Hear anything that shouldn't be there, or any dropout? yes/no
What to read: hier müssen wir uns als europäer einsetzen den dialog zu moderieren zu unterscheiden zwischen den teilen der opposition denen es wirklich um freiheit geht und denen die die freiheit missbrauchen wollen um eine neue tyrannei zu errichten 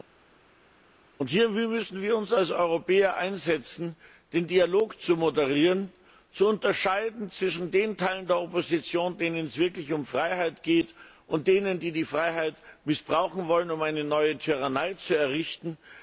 no